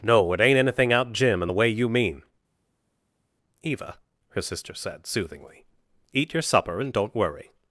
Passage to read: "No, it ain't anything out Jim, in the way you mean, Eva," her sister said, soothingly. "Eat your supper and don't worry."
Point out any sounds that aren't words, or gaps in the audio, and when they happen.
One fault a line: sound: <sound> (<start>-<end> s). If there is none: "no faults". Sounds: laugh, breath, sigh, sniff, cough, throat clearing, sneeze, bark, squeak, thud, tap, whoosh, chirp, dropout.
no faults